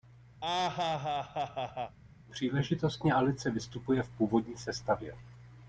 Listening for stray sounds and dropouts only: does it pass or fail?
fail